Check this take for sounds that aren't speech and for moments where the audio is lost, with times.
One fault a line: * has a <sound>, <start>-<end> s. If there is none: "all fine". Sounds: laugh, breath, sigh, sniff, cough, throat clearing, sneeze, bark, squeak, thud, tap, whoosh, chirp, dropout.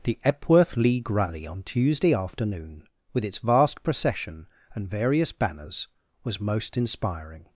all fine